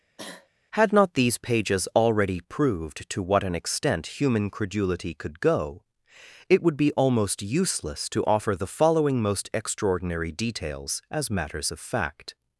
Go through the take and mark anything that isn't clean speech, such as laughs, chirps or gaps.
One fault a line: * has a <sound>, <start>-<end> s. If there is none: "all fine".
* has a cough, 0.2-0.5 s